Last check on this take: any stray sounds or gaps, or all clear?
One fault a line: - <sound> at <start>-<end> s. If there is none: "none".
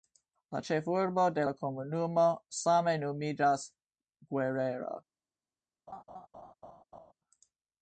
- laugh at 5.9-7.1 s